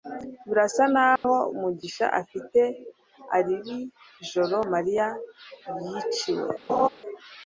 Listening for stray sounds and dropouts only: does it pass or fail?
fail